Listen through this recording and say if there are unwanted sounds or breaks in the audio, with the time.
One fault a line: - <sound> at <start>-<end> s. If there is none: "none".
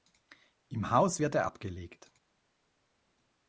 none